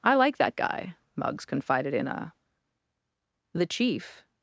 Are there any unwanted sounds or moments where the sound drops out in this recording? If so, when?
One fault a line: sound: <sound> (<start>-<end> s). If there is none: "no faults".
no faults